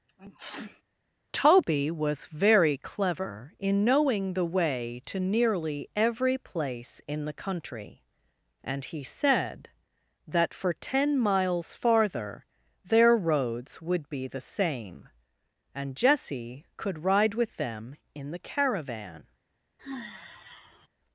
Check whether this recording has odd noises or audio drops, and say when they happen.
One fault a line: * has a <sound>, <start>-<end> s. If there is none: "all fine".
* has a sneeze, 0.1-0.8 s
* has a sigh, 19.8-20.9 s